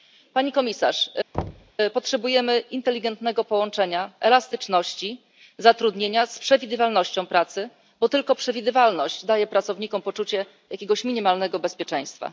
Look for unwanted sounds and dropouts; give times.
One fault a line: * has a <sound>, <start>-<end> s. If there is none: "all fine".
* has a thud, 1.3-1.7 s